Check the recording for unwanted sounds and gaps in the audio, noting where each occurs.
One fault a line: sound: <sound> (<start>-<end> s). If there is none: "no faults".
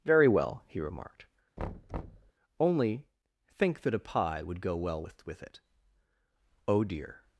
sound: thud (1.6-2.3 s)